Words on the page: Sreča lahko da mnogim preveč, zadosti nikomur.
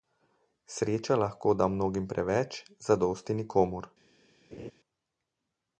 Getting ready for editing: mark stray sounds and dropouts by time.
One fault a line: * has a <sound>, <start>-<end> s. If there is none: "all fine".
* has a laugh, 4.5-4.7 s